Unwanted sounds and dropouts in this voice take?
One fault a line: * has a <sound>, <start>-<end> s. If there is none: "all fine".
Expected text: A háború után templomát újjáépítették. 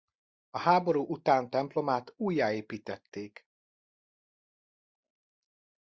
all fine